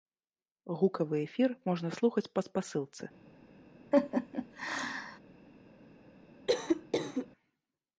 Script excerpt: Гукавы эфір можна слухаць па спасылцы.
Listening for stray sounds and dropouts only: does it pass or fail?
fail